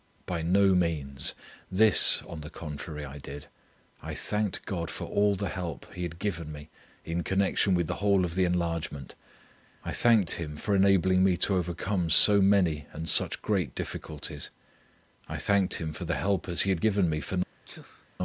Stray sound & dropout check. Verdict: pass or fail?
fail